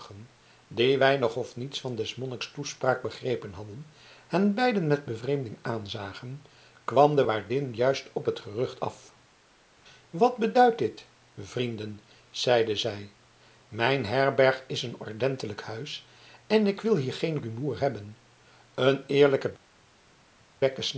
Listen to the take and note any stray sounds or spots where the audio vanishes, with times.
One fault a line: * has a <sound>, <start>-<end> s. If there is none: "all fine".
all fine